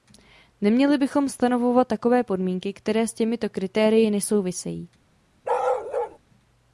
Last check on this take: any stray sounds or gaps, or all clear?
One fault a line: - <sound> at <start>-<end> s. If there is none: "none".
- bark at 5.4-6.2 s